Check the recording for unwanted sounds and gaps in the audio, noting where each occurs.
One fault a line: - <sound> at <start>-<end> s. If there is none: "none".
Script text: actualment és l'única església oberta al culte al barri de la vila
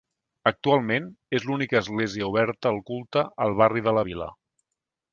none